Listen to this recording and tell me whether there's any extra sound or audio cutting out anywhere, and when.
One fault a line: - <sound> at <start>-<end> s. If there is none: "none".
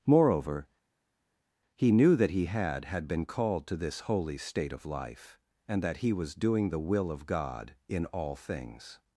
none